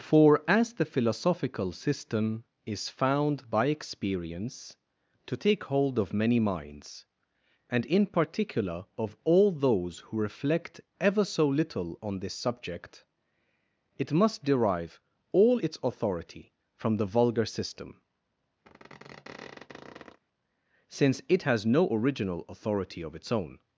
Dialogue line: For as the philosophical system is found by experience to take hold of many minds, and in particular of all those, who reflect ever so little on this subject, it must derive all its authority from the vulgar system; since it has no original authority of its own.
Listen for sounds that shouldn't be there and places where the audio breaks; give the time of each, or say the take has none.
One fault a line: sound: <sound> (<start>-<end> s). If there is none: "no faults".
sound: squeak (18.6-20.2 s)